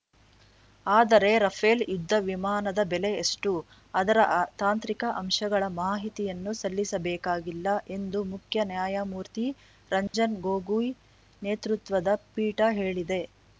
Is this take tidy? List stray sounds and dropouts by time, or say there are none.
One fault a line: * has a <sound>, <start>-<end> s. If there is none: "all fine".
* has a dropout, 10.1-10.1 s